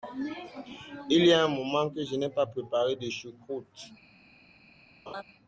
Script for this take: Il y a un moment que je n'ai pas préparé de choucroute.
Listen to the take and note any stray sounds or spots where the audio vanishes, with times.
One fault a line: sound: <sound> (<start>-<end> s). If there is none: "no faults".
sound: laugh (5.1-5.2 s)